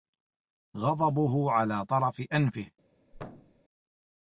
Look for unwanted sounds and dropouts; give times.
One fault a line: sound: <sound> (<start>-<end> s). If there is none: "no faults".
sound: thud (3.1-3.6 s)